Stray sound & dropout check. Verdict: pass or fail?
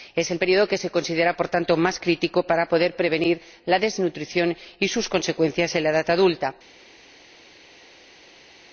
pass